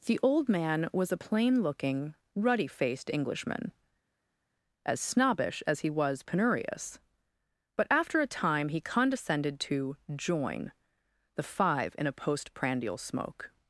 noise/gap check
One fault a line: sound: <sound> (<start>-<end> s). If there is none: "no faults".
no faults